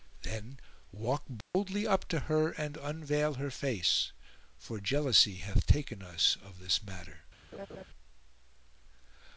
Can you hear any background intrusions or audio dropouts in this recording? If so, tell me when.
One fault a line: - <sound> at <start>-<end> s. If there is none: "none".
- dropout at 1.4-1.5 s
- laugh at 7.5-7.8 s